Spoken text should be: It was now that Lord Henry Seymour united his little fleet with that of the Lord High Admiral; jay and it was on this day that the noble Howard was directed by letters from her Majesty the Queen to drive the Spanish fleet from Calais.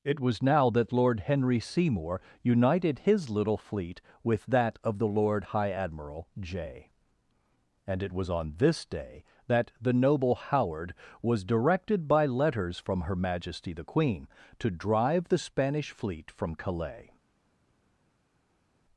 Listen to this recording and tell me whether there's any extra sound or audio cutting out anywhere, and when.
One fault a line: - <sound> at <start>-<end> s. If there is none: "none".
none